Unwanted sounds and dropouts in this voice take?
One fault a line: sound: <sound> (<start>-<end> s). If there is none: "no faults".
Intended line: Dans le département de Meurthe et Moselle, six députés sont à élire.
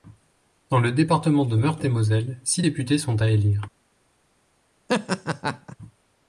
sound: laugh (4.9-5.8 s)